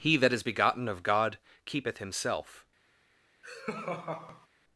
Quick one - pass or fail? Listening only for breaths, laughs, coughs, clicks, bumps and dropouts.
fail